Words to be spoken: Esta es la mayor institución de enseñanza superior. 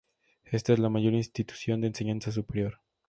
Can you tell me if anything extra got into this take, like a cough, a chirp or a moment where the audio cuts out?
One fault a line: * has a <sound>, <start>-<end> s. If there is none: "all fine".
all fine